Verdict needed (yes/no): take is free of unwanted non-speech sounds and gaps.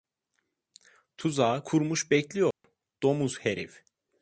no